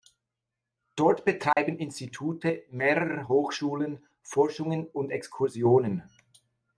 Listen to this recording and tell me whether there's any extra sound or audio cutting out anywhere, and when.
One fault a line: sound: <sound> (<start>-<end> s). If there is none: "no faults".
sound: dropout (1.5-1.6 s)